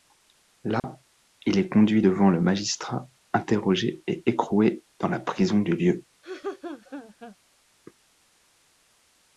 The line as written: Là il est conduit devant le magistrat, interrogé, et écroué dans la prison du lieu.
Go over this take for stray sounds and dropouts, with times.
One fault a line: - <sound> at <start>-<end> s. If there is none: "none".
- dropout at 0.8-0.8 s
- laugh at 6.2-7.4 s